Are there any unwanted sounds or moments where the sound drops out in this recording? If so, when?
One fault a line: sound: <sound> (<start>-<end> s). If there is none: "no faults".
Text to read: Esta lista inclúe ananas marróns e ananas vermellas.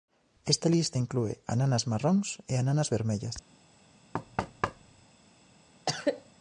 sound: thud (4.1-5.1 s)
sound: cough (5.9-6.3 s)